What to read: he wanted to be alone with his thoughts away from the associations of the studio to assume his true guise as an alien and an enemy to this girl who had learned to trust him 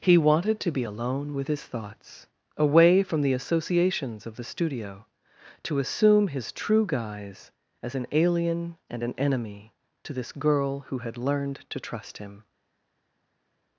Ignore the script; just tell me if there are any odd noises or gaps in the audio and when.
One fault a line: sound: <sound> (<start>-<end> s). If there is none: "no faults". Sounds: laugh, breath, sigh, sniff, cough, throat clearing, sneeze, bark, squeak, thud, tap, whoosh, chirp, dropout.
no faults